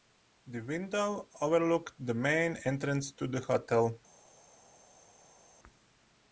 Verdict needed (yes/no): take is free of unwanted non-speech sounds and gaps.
yes